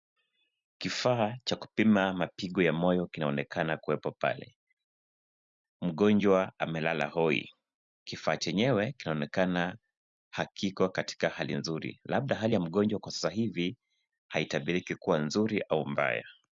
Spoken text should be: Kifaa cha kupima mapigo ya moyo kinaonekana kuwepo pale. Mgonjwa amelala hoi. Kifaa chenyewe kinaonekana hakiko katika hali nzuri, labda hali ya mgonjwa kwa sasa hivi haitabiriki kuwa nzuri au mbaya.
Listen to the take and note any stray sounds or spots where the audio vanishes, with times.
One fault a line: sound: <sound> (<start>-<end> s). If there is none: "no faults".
no faults